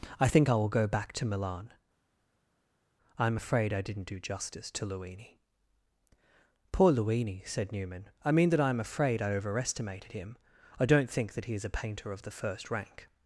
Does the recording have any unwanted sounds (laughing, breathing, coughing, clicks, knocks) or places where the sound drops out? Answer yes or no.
no